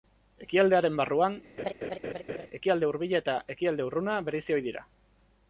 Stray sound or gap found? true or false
true